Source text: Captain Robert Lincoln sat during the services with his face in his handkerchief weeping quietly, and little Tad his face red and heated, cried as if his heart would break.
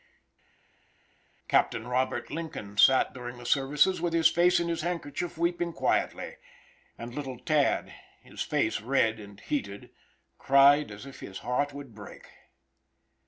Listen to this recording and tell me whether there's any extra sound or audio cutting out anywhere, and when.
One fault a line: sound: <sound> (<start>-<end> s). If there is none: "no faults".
no faults